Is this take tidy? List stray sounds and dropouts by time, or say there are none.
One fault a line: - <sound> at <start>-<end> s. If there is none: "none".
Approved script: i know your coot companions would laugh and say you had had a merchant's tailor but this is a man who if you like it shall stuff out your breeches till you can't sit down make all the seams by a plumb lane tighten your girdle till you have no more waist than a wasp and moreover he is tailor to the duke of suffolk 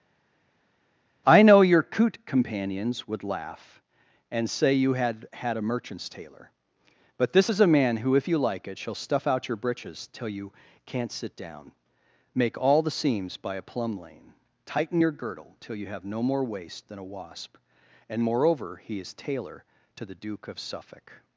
none